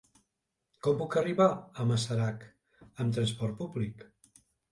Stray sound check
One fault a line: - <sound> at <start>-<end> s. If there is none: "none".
none